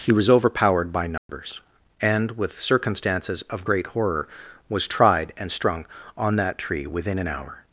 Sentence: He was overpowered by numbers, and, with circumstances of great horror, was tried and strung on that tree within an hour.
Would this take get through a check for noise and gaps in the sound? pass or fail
fail